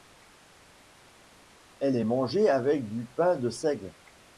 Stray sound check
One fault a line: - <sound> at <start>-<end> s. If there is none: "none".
none